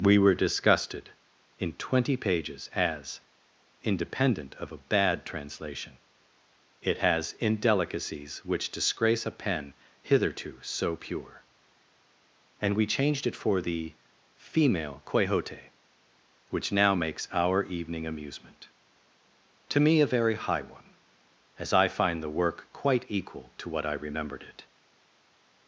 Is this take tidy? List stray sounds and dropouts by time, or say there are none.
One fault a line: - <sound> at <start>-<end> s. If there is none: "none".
none